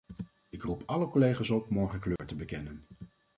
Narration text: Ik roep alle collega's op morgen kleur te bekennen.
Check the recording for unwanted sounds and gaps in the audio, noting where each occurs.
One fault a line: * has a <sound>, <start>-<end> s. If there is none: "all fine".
* has a dropout, 2.2-2.2 s